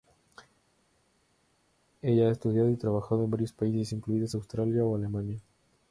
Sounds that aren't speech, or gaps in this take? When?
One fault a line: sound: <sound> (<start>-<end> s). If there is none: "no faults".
no faults